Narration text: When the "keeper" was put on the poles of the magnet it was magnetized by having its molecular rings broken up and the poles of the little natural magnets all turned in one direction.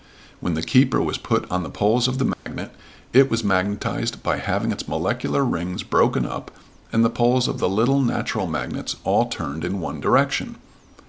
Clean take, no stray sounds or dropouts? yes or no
no